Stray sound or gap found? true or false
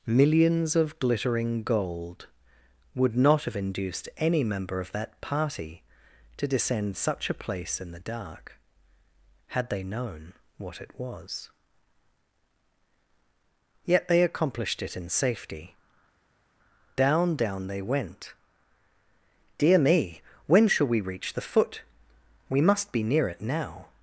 false